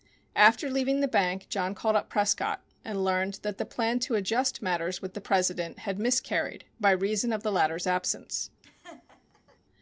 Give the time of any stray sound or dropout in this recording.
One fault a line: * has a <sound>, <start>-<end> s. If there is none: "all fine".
* has a laugh, 8.6-9.6 s